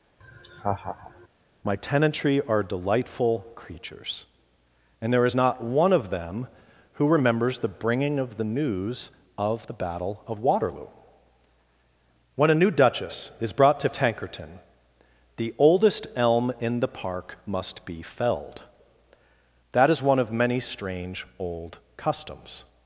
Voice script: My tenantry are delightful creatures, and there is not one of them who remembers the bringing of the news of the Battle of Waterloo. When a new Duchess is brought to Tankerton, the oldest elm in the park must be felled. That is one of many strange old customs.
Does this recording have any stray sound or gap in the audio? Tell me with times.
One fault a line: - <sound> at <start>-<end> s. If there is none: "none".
- laugh at 0.2-1.3 s